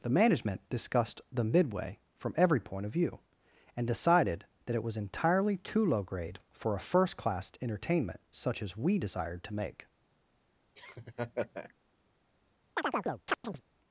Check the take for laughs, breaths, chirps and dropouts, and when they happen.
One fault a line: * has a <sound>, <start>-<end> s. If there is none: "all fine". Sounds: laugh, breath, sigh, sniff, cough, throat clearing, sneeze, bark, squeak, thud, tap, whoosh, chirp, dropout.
* has a laugh, 10.7-11.7 s
* has a chirp, 12.8-13.6 s